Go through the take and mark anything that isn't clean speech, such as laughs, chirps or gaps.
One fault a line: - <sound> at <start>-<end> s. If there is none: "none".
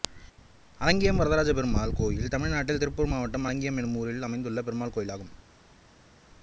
none